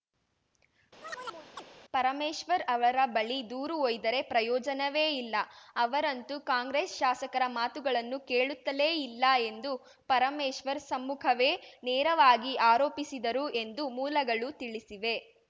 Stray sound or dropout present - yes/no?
yes